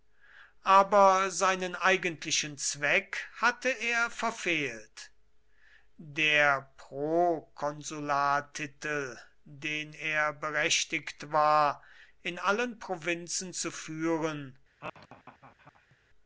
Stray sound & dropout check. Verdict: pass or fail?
fail